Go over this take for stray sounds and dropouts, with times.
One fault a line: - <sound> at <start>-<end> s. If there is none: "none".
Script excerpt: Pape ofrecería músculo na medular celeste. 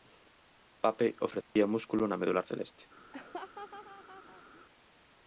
- dropout at 1.4-1.6 s
- laugh at 3.1-4.6 s